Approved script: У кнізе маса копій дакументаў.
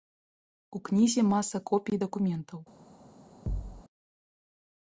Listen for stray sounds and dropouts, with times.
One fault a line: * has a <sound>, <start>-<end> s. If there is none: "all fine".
* has a thud, 3.5-3.8 s